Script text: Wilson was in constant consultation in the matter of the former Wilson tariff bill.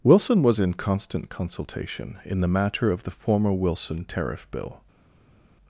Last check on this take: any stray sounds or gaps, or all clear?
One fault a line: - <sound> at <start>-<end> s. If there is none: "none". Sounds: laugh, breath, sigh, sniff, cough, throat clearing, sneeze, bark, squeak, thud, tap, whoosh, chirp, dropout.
none